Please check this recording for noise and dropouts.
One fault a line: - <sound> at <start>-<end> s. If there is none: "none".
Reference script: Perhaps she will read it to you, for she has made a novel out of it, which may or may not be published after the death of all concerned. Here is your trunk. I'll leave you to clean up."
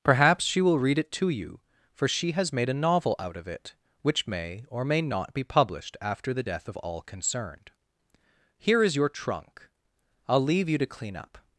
none